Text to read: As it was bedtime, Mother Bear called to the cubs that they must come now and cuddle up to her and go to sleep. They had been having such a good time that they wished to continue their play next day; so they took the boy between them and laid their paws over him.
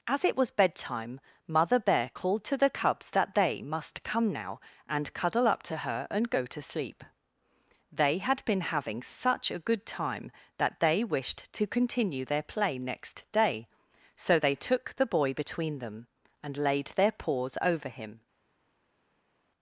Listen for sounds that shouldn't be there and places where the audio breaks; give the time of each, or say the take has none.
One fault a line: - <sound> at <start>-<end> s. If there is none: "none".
none